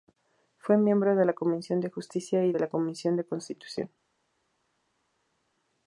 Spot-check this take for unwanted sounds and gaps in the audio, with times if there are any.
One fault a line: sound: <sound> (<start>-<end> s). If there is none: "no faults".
no faults